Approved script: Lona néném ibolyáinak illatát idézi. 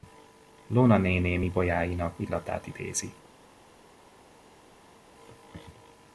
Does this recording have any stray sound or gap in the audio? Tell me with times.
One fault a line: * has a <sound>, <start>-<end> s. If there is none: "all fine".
all fine